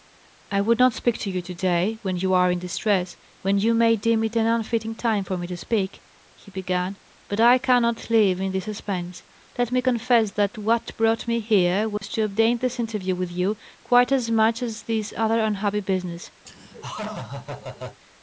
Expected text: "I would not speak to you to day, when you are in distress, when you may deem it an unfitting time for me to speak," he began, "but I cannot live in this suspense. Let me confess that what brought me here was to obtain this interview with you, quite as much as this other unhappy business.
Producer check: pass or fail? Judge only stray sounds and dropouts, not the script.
fail